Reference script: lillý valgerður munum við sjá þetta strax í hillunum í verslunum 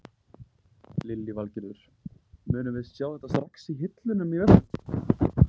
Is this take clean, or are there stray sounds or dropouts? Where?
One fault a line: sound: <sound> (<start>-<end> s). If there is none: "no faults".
no faults